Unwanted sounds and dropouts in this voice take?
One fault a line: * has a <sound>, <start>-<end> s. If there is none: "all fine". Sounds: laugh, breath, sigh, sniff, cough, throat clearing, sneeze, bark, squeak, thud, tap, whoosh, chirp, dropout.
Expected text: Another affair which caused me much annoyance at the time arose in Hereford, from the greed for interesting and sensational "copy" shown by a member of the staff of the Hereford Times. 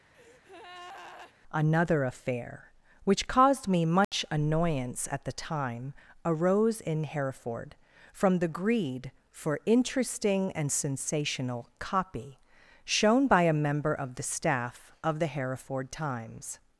* has a breath, 0.1-1.3 s
* has a dropout, 4.0-4.1 s